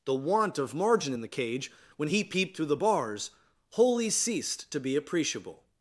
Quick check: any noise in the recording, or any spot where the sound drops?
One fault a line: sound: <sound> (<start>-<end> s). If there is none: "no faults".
no faults